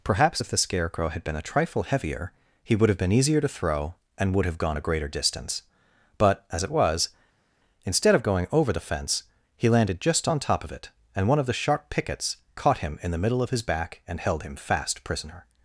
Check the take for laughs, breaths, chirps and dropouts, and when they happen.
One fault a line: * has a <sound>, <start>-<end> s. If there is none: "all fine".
all fine